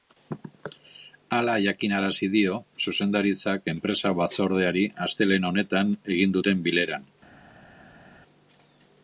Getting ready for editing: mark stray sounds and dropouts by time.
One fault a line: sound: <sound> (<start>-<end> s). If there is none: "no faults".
no faults